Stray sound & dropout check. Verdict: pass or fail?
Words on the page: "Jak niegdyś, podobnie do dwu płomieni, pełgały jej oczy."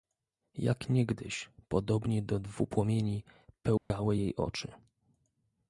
fail